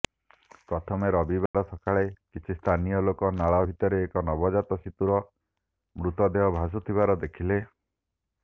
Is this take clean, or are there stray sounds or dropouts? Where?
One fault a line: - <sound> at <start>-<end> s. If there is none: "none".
- dropout at 1.5-1.5 s